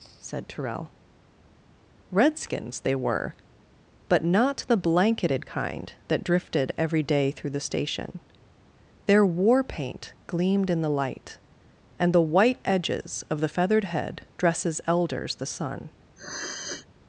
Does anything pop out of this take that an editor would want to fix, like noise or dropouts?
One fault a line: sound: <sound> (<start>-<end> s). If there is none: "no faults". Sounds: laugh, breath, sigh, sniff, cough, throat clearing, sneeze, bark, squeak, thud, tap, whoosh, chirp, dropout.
sound: sniff (16.2-16.9 s)